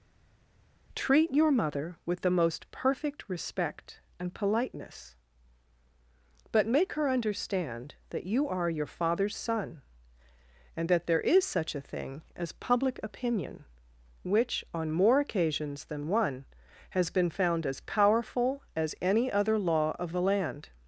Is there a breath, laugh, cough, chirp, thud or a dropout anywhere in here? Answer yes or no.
no